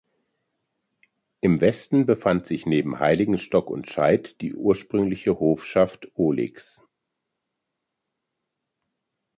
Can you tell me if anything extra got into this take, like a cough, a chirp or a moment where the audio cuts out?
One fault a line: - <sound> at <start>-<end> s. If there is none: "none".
none